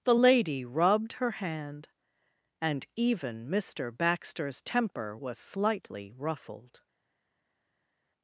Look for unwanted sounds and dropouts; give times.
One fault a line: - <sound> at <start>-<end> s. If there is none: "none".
none